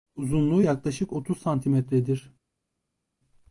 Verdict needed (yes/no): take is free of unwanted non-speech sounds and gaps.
yes